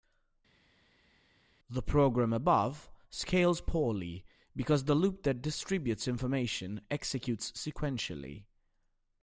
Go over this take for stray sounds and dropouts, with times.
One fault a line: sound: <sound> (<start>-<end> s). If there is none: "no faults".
no faults